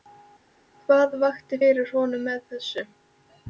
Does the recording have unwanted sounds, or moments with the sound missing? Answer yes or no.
no